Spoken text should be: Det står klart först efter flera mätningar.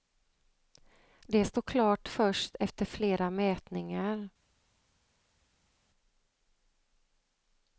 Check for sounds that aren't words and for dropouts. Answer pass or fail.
pass